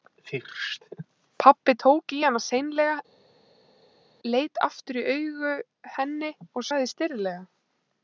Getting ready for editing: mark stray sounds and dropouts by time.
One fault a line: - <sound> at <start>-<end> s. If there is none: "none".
none